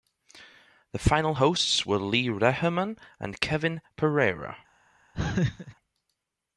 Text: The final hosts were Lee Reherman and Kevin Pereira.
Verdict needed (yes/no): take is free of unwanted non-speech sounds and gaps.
no